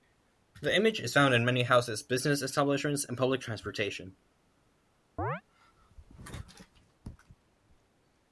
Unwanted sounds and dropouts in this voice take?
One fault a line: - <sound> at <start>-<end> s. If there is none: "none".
- chirp at 5.2-5.4 s